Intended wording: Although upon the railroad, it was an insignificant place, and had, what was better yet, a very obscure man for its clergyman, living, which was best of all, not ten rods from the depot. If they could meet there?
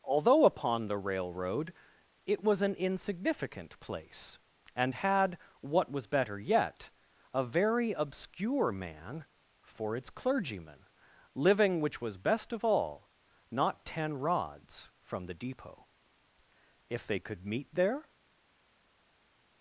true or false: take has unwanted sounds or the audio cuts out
false